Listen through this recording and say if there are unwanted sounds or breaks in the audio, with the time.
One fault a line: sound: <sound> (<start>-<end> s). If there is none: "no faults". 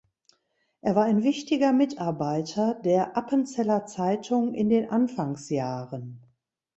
no faults